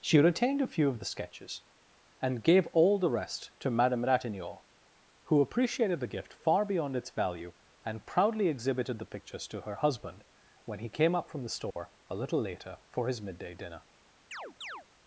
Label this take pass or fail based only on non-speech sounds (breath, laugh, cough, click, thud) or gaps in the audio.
fail